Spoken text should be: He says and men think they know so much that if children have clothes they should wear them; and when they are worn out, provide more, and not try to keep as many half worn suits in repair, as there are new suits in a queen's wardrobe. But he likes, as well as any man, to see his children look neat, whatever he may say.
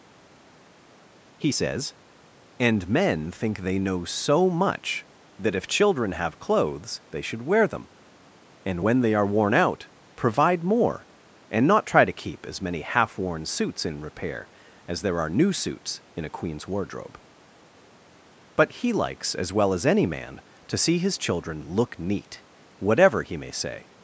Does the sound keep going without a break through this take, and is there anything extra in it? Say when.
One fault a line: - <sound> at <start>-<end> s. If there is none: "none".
none